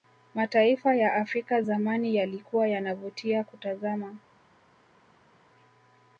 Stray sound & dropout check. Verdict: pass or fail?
pass